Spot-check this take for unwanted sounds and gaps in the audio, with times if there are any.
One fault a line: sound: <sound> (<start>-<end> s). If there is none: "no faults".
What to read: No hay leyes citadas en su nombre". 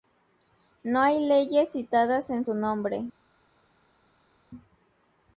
no faults